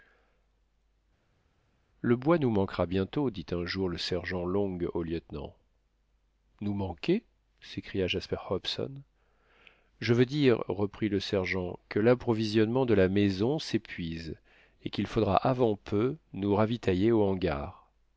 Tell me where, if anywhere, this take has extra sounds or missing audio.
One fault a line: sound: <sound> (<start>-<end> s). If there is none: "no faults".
no faults